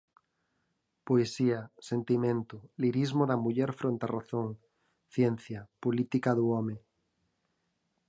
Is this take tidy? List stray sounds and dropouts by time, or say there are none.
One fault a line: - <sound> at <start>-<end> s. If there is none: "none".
none